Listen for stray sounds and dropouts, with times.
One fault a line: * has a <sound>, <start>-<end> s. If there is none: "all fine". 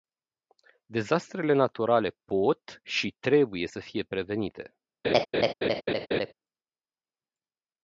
* has a laugh, 5.0-6.3 s